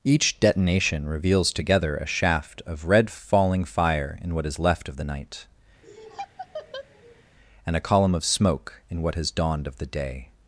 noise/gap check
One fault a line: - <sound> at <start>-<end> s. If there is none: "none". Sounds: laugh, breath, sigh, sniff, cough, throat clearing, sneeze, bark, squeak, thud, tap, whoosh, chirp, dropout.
- laugh at 5.8-7.2 s